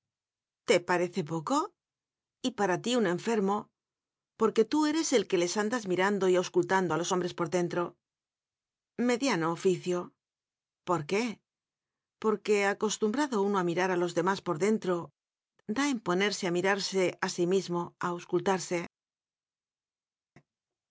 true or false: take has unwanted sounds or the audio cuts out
false